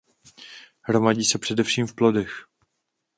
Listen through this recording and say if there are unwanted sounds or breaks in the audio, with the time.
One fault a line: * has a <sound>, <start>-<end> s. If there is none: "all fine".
all fine